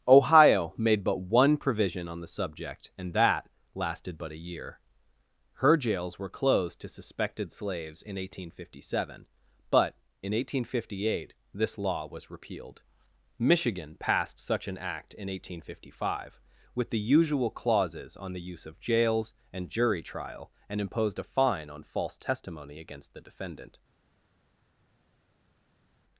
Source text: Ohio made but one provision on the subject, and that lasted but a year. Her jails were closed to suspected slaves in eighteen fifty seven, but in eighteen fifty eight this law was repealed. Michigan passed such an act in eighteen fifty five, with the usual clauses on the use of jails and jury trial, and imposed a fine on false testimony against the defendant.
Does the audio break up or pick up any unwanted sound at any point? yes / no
no